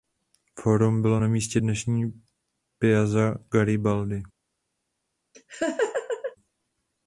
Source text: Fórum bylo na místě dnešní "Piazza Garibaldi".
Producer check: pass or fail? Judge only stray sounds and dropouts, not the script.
fail